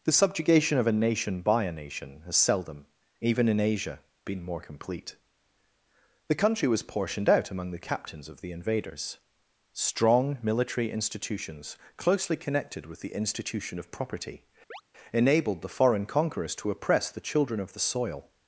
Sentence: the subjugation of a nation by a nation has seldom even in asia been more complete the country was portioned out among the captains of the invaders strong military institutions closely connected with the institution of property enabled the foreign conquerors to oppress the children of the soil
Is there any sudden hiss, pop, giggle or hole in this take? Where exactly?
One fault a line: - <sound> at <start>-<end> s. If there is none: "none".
- chirp at 14.7-14.8 s